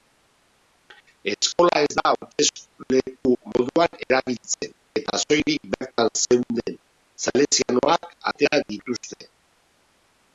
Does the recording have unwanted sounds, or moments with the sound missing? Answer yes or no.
no